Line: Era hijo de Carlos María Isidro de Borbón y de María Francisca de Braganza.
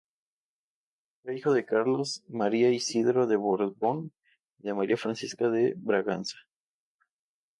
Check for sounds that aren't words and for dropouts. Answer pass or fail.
pass